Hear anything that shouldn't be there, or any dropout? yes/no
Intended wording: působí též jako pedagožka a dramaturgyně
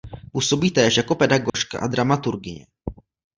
yes